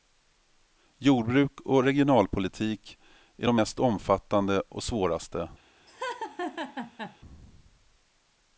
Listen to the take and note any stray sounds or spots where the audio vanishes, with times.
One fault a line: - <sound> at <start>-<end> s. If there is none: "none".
- laugh at 5.9-7.2 s